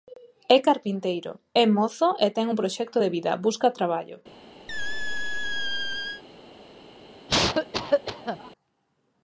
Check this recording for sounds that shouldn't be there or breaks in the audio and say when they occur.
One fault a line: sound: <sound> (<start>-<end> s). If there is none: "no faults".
sound: squeak (4.7-6.2 s)
sound: cough (7.3-8.5 s)